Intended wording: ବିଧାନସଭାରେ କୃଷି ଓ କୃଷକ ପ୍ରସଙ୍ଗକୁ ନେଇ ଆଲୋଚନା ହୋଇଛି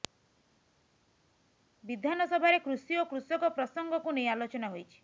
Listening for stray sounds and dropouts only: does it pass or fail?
pass